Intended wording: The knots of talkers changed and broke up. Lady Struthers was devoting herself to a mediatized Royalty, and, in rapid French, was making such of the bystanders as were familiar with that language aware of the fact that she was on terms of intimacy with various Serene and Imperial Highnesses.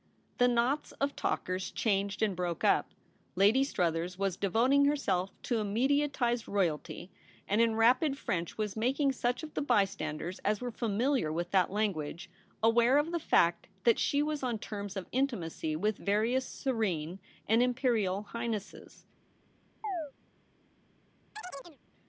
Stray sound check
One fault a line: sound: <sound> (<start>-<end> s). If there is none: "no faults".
sound: chirp (19.8-20.1 s)
sound: chirp (21.3-21.8 s)